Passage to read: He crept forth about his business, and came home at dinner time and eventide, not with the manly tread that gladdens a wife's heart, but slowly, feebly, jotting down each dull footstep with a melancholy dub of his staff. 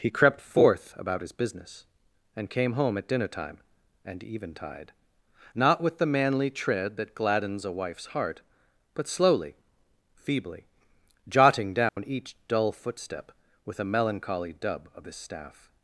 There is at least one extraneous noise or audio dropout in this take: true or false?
true